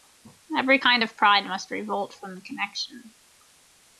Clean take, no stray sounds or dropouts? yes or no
yes